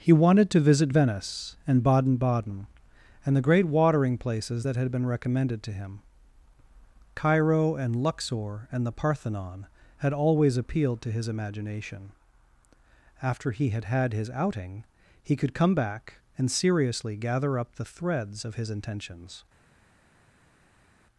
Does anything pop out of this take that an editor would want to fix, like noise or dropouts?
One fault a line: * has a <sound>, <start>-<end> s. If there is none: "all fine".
all fine